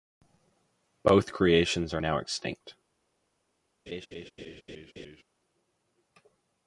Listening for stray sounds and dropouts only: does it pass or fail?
fail